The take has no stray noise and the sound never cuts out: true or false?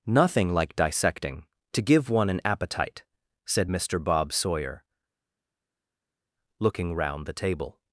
true